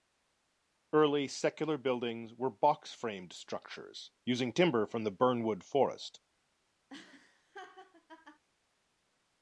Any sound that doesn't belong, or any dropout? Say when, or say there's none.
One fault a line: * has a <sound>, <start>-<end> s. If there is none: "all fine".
* has a laugh, 6.9-8.4 s